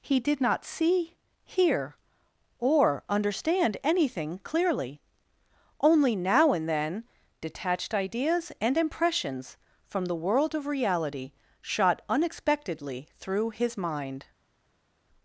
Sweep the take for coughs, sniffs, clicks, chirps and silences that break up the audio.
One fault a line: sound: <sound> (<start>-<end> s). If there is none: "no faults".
no faults